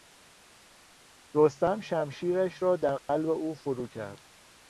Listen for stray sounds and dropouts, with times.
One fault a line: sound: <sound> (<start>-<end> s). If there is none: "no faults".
sound: dropout (3.0-3.1 s)